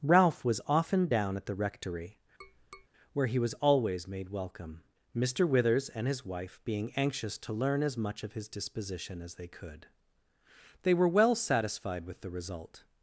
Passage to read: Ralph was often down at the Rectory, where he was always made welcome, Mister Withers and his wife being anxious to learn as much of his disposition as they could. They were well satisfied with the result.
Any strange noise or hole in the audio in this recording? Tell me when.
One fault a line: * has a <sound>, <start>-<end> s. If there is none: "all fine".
* has a tap, 2.4-2.9 s